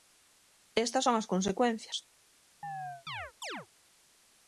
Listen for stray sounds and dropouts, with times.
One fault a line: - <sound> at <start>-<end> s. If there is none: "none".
- chirp at 2.6-3.7 s